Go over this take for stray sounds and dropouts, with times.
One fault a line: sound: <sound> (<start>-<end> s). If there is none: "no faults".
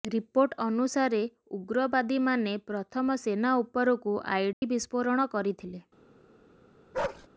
sound: dropout (4.5-4.6 s)
sound: bark (6.9-7.3 s)